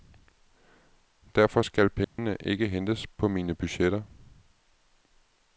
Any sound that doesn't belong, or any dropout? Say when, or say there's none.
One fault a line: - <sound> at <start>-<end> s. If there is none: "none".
- dropout at 2.0-2.2 s